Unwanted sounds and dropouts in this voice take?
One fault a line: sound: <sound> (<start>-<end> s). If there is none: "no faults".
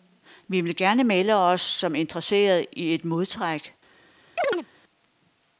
sound: chirp (4.4-4.7 s)